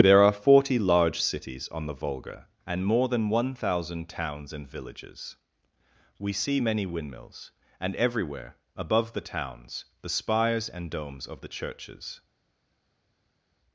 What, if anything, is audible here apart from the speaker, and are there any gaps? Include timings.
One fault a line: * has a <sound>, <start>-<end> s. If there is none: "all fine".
all fine